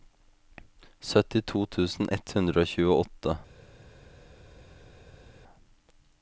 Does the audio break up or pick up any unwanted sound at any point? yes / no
no